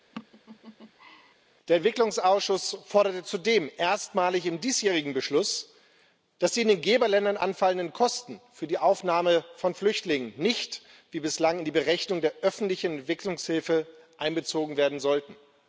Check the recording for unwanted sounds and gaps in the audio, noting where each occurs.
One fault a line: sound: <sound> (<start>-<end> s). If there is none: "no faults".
sound: laugh (0.1-1.3 s)